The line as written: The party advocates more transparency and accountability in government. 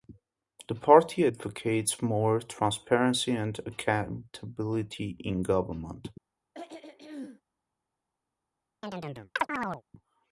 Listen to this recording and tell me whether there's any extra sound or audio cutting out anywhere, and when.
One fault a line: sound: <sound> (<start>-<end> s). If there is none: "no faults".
sound: throat clearing (6.5-7.4 s)
sound: chirp (8.8-9.8 s)